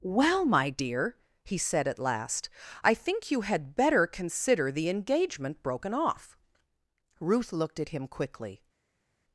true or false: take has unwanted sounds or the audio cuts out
false